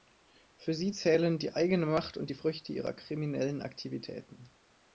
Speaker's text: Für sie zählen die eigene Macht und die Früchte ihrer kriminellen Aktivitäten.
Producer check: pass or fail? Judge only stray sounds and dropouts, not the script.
pass